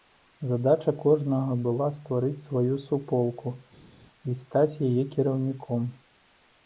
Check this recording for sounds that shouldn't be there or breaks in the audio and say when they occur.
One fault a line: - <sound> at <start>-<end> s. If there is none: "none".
none